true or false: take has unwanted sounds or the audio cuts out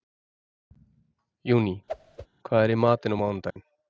true